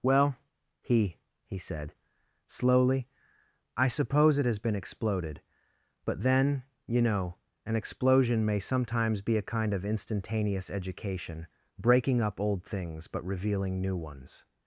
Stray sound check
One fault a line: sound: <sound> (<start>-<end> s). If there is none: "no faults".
no faults